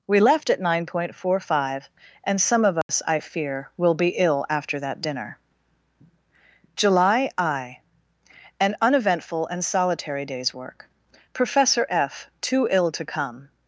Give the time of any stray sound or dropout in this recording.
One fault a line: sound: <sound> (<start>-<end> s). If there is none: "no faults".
sound: dropout (2.8-2.9 s)